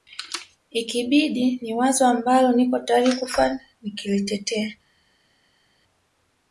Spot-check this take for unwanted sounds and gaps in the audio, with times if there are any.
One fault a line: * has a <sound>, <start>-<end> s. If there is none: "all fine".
all fine